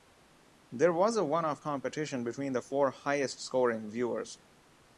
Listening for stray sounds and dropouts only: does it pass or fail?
pass